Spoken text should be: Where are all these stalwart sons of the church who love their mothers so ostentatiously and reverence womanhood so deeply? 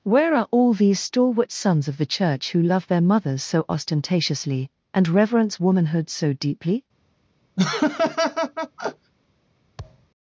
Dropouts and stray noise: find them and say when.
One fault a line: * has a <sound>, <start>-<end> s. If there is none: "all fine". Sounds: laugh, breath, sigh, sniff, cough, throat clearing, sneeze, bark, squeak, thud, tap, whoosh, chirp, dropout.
* has a laugh, 7.6-9.1 s
* has a thud, 9.8-10.1 s